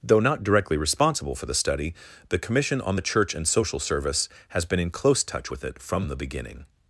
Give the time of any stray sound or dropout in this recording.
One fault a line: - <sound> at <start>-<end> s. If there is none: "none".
none